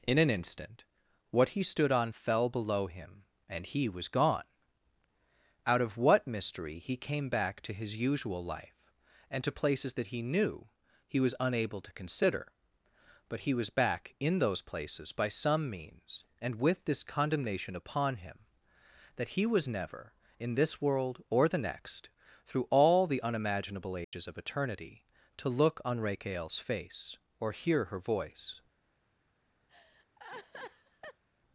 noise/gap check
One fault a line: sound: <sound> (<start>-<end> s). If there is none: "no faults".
sound: dropout (24.0-24.1 s)
sound: laugh (29.7-31.2 s)